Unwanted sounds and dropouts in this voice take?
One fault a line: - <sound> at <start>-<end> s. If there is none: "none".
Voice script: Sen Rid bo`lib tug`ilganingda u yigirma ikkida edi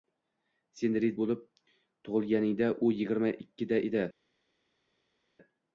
none